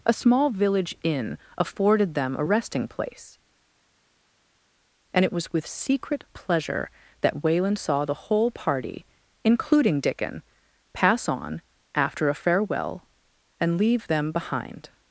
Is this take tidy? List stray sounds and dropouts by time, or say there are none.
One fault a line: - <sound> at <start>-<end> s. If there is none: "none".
none